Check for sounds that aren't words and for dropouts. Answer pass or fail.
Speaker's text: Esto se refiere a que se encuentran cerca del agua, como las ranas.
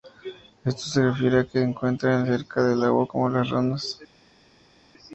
pass